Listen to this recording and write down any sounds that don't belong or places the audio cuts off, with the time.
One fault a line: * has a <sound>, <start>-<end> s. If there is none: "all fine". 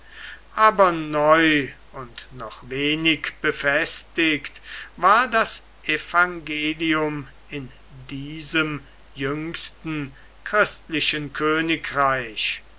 all fine